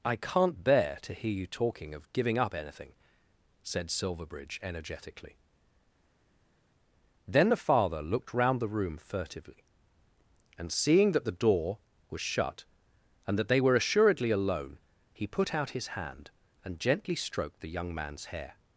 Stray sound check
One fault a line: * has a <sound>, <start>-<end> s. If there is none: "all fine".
all fine